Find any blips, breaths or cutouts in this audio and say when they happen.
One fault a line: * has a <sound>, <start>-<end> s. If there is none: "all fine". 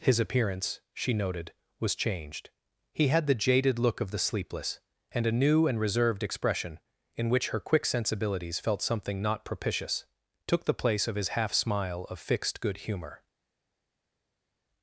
all fine